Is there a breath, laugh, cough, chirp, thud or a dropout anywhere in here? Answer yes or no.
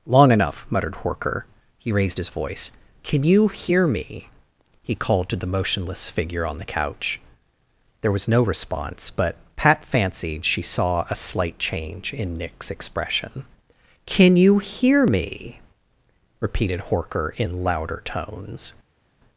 no